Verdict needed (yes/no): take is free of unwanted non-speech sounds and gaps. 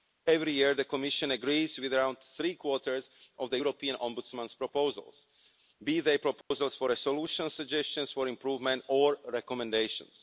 no